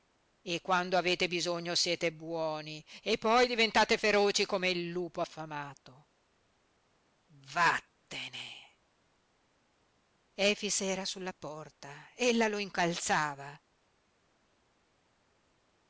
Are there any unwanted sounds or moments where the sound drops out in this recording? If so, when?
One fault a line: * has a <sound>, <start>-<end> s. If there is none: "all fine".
all fine